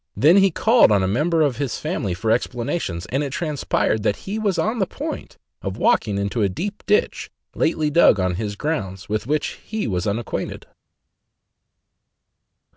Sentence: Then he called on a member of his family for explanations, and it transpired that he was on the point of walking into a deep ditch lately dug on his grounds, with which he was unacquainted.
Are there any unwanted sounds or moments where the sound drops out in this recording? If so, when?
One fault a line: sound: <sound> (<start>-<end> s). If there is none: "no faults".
no faults